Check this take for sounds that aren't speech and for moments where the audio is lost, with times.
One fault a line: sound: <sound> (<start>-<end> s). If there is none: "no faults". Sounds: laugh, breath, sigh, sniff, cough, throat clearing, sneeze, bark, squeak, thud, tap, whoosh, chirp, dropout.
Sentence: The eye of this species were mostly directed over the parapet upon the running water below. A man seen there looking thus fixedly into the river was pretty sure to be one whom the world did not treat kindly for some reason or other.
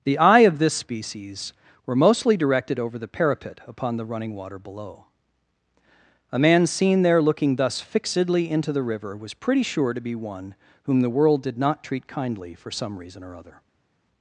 no faults